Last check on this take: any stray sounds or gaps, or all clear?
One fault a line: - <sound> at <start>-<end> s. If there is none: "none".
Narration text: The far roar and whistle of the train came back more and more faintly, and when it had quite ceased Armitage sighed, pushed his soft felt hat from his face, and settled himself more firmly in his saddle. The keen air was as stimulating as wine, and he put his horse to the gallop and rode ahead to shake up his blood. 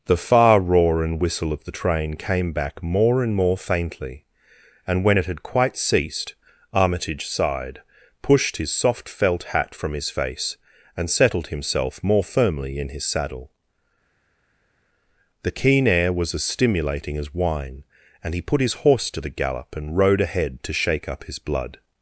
none